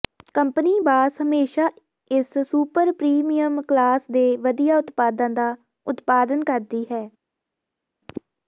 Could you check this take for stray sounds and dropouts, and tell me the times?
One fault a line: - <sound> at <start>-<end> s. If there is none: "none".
none